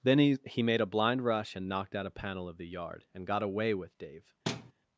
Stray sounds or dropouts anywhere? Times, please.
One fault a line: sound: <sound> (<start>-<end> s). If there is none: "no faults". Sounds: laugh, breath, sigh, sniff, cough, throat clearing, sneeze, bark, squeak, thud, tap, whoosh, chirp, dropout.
sound: thud (4.5-4.7 s)